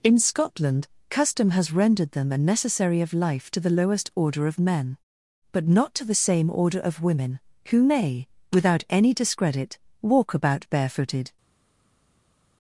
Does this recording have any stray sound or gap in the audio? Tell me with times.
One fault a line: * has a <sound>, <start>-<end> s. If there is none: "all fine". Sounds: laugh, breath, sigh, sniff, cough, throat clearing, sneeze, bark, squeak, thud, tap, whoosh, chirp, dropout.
all fine